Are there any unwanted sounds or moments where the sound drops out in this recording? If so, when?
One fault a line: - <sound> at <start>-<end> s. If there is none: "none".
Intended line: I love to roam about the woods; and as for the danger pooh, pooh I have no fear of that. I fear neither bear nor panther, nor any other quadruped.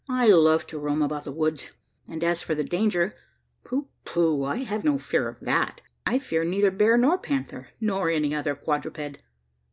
none